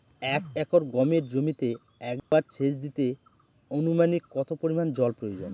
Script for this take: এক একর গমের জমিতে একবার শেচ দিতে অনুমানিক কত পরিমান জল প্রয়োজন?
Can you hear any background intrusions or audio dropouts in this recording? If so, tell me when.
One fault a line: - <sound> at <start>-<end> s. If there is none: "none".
- dropout at 2.2-2.3 s